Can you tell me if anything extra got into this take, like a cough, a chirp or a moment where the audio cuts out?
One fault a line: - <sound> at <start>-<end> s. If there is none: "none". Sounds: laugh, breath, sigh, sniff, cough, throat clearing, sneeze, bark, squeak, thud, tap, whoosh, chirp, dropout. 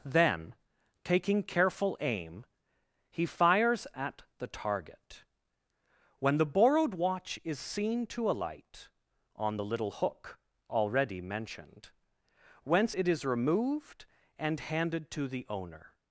none